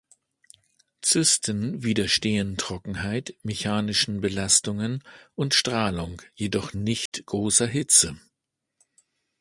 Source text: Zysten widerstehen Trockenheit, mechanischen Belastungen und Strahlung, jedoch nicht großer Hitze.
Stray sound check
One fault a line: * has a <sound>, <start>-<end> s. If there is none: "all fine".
* has a dropout, 7.1-7.1 s